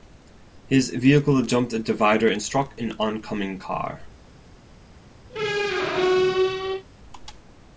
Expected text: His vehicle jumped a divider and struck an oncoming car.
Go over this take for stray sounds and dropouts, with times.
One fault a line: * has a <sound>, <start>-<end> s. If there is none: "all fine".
* has a squeak, 5.3-6.8 s